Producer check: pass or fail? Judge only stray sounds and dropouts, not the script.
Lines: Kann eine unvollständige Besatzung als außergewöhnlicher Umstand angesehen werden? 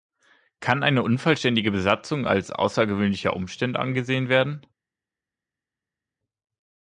pass